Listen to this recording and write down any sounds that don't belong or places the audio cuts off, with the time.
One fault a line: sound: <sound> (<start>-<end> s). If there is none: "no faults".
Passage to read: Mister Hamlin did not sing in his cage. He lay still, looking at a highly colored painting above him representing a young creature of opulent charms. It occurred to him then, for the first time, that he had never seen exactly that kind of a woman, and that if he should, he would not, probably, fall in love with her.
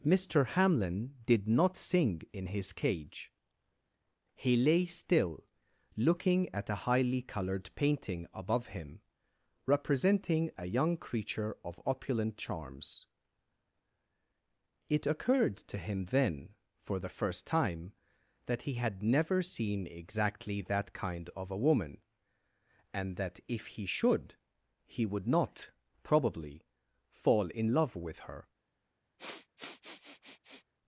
sound: sniff (29.2-30.7 s)